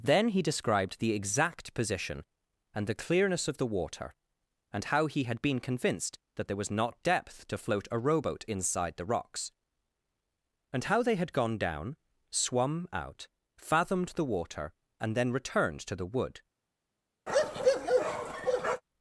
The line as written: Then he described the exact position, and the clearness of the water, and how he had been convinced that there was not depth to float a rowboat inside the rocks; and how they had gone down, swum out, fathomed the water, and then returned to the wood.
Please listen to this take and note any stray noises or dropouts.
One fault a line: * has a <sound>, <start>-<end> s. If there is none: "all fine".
* has a bark, 17.3-18.8 s